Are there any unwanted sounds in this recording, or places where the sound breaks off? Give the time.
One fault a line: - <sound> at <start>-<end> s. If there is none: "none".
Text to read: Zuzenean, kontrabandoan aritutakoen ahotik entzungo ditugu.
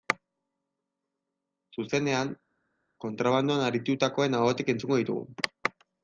none